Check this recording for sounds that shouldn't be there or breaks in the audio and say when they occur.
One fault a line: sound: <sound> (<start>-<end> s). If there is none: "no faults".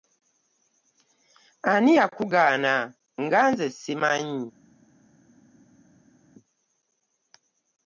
no faults